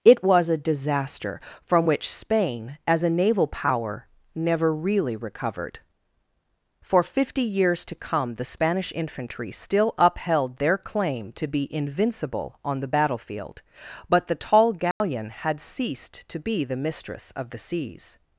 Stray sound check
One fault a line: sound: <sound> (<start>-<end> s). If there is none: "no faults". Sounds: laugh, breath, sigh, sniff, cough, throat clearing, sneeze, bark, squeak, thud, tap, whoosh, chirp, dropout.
sound: dropout (14.9-15.0 s)